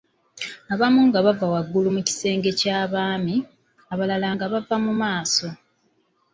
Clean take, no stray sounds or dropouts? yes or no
yes